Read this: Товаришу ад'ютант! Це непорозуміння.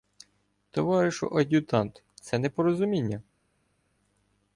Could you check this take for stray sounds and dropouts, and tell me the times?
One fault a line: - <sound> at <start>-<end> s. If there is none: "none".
none